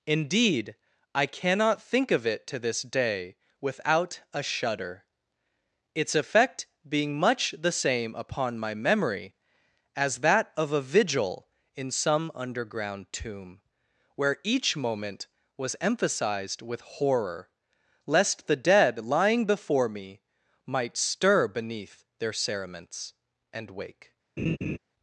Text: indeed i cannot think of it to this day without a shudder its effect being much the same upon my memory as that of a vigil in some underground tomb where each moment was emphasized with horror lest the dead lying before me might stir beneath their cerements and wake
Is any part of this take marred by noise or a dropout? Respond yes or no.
yes